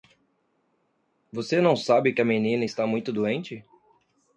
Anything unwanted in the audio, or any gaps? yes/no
no